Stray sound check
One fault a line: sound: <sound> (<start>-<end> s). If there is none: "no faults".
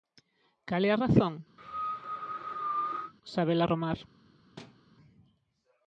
sound: cough (1.6-3.1 s)
sound: thud (4.6-4.8 s)